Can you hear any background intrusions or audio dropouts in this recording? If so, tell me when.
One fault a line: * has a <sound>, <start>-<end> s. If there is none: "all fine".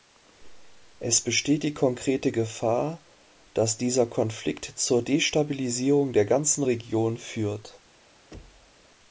* has a thud, 8.3-8.8 s